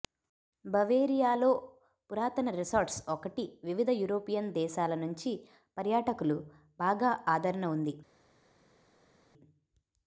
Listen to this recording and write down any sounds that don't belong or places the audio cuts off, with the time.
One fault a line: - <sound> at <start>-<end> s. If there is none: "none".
none